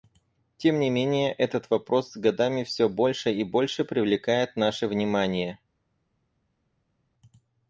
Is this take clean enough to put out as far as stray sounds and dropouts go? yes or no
yes